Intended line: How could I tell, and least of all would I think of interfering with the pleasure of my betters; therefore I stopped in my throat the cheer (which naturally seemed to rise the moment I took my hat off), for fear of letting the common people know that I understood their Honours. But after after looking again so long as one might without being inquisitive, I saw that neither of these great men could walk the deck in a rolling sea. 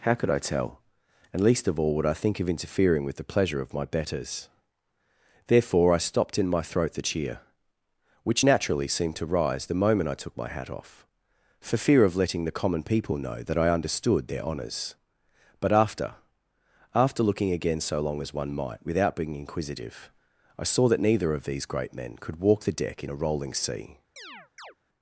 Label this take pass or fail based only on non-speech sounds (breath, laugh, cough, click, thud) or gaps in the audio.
fail